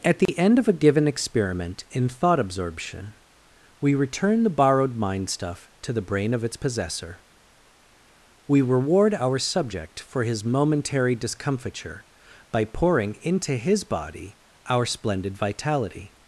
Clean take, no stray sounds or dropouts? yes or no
no